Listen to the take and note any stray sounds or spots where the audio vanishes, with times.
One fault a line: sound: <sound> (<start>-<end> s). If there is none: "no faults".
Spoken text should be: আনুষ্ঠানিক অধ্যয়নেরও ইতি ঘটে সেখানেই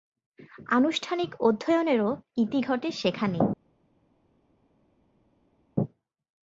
no faults